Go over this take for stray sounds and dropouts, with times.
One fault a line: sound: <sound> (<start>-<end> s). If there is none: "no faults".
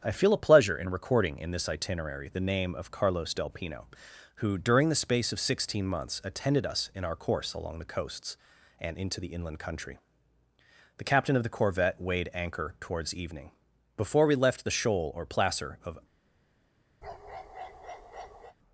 sound: bark (17.0-18.6 s)